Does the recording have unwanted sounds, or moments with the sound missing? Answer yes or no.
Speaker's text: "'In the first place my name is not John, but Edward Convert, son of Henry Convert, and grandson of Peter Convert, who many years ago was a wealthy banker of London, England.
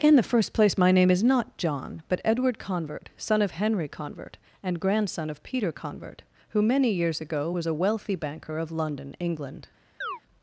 yes